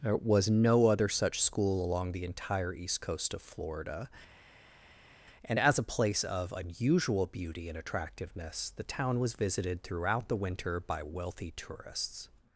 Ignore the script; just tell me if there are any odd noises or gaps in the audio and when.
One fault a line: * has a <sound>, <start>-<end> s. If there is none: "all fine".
all fine